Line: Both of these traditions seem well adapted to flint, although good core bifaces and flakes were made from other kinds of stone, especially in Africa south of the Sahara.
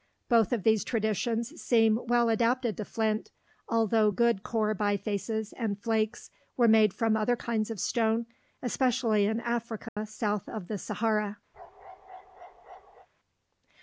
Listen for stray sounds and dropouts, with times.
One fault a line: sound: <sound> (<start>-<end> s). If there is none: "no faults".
sound: dropout (9.9-10.0 s)
sound: bark (11.5-13.1 s)